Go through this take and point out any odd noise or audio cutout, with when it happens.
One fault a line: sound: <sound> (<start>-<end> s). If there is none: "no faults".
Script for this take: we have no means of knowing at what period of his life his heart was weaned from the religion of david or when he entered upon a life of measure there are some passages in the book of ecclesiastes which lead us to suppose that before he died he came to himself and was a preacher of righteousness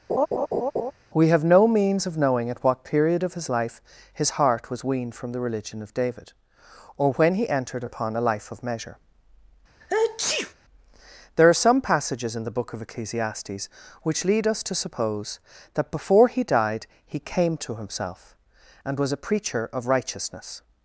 sound: laugh (0.1-0.9 s)
sound: sneeze (9.8-10.5 s)